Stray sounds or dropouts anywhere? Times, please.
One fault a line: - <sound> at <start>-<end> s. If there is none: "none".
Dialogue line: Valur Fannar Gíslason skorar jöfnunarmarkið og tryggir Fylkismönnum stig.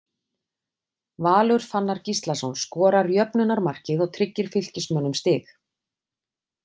none